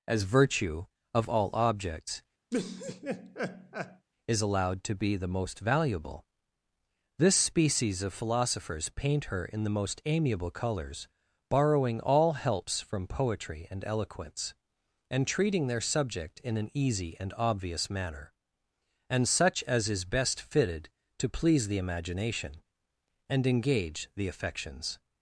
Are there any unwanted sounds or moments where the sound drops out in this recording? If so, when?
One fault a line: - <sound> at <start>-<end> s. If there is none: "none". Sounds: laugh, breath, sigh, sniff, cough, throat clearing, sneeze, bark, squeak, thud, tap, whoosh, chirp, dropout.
- laugh at 2.5-4.1 s